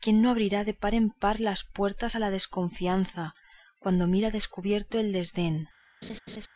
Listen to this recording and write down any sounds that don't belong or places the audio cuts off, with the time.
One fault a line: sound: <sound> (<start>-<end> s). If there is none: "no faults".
sound: laugh (6.0-6.5 s)